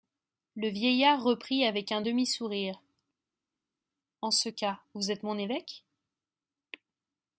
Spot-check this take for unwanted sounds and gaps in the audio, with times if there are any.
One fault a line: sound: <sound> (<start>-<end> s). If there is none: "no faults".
no faults